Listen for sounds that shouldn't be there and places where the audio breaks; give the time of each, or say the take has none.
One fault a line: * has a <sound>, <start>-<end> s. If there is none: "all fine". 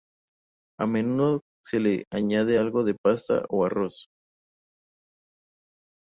all fine